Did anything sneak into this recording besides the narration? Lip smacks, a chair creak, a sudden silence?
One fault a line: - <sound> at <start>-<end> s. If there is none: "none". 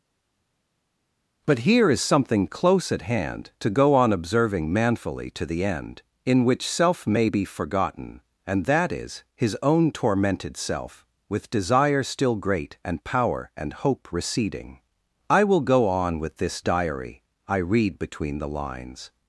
none